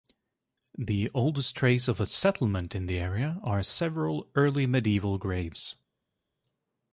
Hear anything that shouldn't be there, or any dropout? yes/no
no